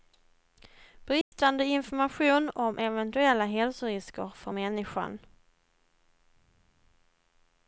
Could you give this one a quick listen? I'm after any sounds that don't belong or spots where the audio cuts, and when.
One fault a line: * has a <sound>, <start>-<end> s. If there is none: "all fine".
* has a dropout, 1.2-1.3 s